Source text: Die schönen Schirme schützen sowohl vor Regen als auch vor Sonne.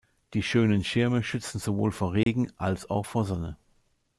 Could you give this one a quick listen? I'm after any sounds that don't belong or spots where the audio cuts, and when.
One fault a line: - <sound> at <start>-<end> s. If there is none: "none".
- dropout at 2.2-2.3 s